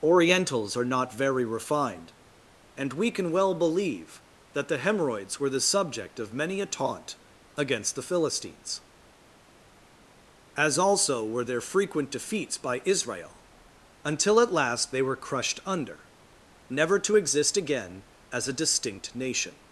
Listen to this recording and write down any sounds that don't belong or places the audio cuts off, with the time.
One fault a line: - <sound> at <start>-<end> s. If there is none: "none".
none